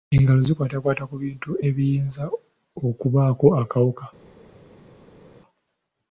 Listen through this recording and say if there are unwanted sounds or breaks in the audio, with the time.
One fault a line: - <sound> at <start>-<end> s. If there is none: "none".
none